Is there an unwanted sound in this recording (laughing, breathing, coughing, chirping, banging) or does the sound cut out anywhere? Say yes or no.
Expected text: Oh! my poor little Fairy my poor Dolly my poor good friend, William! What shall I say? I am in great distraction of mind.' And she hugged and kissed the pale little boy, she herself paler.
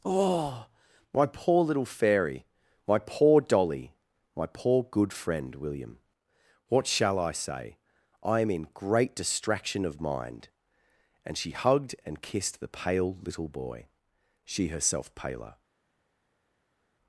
no